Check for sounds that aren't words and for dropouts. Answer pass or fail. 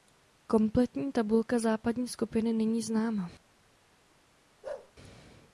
fail